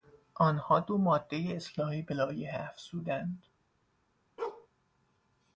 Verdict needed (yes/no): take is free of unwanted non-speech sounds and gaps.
no